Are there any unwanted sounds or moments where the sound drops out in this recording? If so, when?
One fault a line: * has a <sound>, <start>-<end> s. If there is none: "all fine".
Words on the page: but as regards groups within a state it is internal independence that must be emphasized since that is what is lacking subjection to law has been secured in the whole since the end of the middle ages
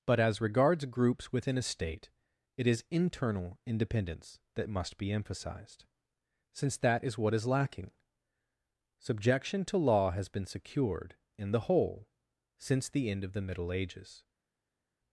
all fine